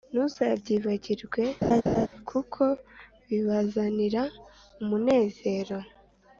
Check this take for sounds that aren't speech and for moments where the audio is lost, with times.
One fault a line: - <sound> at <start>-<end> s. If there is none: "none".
- laugh at 1.6-2.1 s